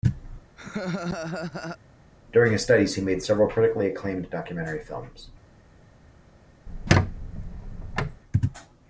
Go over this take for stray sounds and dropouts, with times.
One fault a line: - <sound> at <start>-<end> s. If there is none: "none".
- laugh at 0.6-1.8 s
- squeak at 6.7-8.2 s